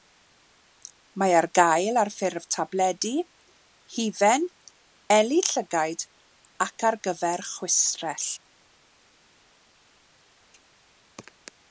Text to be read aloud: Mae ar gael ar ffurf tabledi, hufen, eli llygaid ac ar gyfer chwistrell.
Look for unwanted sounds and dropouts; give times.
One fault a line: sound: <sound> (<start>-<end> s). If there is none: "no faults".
no faults